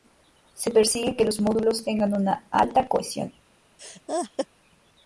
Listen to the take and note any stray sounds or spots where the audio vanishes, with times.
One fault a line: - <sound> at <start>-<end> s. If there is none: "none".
- laugh at 3.8-4.5 s